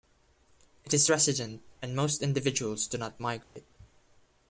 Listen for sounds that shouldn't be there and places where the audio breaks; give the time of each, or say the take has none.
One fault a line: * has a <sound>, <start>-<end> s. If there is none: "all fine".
* has a dropout, 3.4-3.6 s